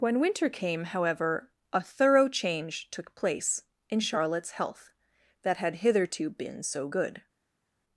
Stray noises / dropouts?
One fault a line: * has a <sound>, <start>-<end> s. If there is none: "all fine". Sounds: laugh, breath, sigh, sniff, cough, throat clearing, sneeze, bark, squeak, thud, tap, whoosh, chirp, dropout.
all fine